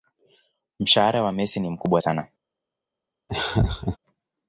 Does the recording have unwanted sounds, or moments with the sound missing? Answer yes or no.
yes